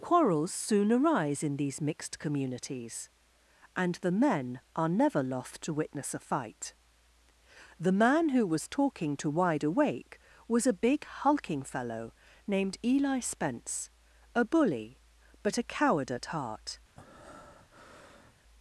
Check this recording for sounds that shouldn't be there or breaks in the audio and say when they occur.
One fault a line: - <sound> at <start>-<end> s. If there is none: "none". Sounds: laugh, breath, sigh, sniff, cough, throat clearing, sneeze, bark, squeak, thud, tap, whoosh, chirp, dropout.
- breath at 17.0-18.3 s